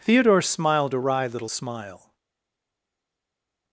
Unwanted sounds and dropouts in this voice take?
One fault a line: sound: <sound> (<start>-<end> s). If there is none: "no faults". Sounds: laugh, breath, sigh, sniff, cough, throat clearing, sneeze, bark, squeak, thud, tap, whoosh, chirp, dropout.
no faults